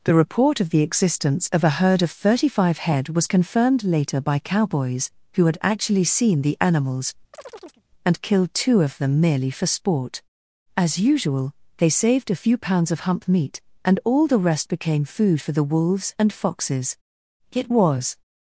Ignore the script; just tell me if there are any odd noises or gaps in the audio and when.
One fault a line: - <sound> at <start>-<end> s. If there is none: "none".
- chirp at 7.3-7.8 s